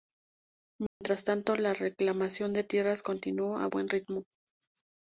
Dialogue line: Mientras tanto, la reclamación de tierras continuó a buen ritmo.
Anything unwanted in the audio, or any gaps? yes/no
yes